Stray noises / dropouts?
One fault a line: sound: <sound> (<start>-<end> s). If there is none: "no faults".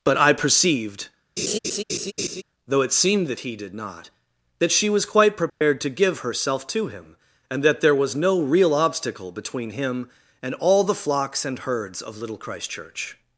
sound: laugh (1.4-2.4 s)
sound: dropout (5.5-5.6 s)